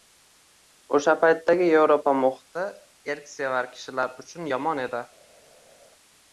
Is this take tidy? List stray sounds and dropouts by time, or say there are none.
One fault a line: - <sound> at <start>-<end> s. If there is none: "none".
none